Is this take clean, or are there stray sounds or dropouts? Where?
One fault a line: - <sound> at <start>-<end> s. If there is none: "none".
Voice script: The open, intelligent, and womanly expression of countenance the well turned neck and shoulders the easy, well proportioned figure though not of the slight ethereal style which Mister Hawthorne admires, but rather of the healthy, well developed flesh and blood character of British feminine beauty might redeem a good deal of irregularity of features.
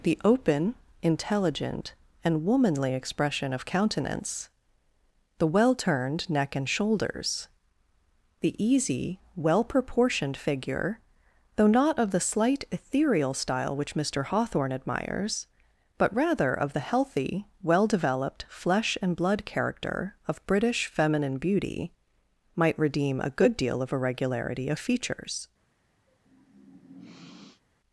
- sniff at 26.1-27.6 s